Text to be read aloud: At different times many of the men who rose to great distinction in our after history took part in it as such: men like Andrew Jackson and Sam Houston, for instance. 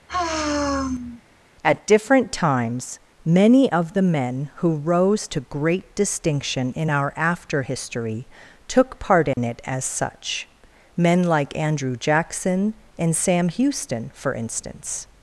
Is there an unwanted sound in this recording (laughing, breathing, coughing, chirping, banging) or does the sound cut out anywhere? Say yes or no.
yes